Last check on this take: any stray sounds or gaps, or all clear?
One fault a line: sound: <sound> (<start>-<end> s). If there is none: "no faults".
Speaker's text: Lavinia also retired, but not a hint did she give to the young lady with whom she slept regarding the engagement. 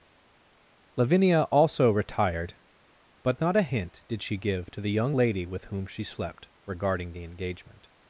no faults